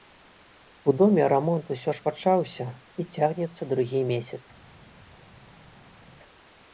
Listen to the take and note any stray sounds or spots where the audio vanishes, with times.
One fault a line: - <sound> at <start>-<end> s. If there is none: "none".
none